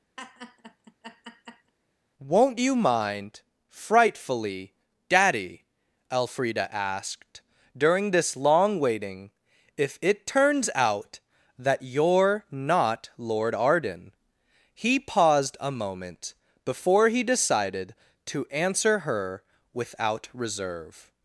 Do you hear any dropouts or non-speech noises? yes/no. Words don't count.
yes